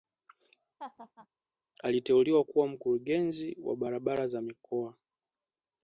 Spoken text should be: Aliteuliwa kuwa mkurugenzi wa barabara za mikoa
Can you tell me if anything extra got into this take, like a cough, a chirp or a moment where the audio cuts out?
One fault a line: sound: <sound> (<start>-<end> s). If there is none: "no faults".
sound: laugh (0.8-1.3 s)